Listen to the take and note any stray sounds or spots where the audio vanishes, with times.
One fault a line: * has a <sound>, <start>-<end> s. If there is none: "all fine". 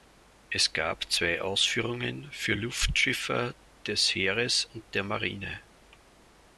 all fine